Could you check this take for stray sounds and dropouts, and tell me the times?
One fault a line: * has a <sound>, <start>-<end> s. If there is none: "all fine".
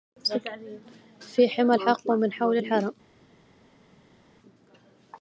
all fine